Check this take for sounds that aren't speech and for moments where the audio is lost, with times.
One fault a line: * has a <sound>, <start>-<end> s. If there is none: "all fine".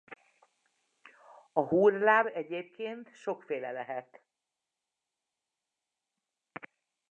all fine